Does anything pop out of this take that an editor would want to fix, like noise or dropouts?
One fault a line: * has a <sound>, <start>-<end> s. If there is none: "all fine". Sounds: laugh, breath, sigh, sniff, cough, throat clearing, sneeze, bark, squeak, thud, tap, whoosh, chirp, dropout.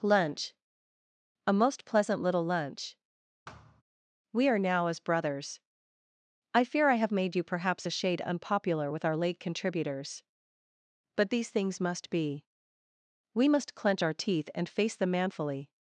* has a thud, 3.5-3.8 s